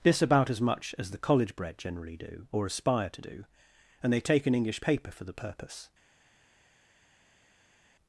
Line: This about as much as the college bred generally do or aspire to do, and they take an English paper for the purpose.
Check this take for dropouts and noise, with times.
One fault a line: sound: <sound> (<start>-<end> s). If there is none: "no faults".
no faults